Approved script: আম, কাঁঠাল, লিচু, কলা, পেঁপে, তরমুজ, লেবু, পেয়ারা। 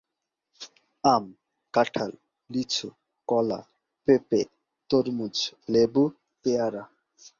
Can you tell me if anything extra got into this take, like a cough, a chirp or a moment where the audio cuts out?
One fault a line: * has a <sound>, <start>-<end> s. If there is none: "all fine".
all fine